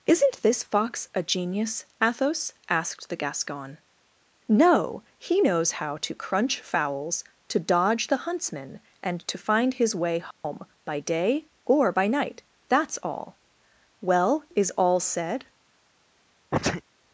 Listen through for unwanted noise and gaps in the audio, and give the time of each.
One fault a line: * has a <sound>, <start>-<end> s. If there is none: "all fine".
* has a dropout, 10.3-10.4 s
* has a sneeze, 16.5-16.8 s